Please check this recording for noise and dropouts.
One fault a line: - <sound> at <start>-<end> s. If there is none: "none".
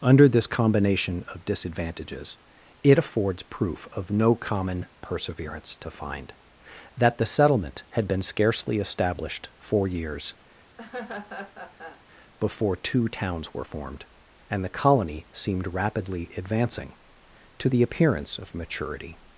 - laugh at 10.8-12.0 s